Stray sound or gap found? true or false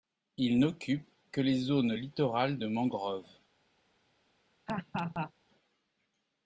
true